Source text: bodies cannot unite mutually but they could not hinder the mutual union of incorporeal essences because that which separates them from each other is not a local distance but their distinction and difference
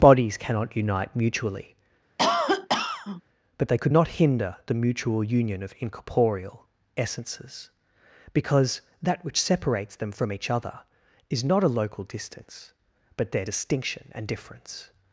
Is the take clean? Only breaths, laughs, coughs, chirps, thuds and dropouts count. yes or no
no